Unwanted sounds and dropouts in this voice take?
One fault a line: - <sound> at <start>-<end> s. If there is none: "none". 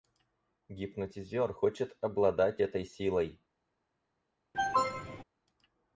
- cough at 4.5-5.2 s